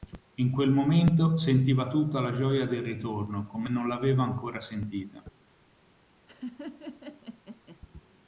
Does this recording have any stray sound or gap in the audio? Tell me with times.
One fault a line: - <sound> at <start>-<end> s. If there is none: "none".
- laugh at 6.3-7.8 s